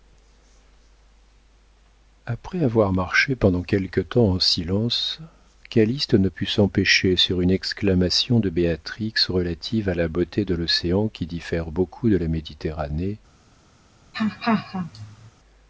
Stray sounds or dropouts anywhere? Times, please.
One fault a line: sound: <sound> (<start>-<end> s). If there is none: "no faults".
sound: laugh (14.1-15.3 s)